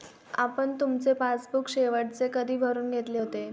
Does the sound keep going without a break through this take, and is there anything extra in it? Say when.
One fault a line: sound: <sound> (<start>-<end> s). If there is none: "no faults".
no faults